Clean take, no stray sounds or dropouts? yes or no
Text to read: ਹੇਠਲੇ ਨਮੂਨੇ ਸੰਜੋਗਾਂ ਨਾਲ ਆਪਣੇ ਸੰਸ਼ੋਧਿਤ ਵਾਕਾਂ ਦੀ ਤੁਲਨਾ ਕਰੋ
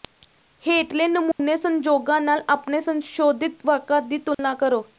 no